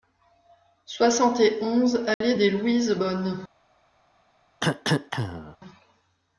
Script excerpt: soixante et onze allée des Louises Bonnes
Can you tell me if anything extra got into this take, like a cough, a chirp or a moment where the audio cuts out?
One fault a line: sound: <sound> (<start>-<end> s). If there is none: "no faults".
sound: dropout (2.1-2.2 s)
sound: cough (4.6-5.6 s)